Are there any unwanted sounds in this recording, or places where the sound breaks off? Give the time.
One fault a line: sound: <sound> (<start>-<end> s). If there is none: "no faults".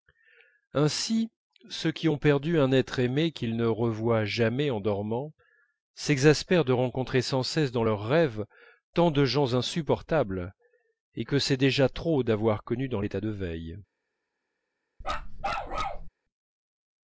sound: bark (15.0-16.1 s)